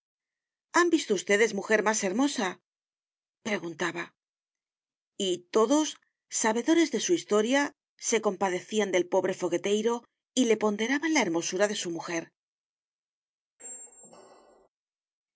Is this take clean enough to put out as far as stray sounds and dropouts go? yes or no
no